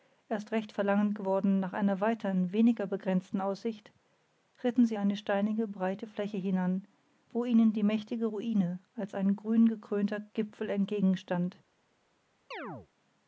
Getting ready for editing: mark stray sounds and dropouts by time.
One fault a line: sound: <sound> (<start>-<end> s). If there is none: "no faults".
sound: chirp (12.5-12.9 s)